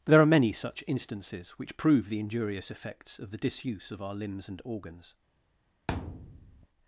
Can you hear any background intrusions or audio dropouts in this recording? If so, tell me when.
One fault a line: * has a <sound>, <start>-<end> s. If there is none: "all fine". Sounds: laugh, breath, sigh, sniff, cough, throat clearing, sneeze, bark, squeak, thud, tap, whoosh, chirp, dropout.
* has a thud, 5.9-6.7 s